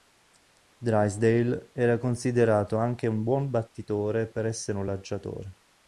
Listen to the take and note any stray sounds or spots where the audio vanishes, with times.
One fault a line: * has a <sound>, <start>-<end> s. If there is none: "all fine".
all fine